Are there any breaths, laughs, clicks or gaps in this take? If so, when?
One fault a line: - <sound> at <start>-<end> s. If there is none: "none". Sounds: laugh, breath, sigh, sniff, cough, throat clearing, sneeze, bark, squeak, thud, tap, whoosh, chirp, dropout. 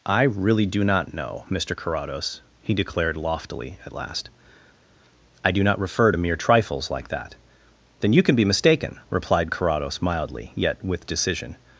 none